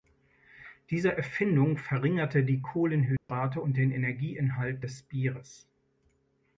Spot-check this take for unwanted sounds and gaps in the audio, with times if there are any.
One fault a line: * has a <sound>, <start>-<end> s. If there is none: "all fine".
* has a dropout, 3.2-3.3 s